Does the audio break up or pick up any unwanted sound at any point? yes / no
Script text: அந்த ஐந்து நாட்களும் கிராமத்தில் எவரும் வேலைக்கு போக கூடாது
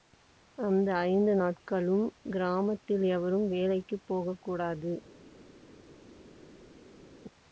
no